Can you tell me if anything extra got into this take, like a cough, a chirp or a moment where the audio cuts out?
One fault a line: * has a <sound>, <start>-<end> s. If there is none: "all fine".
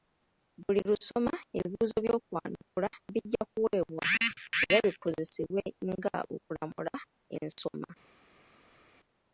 all fine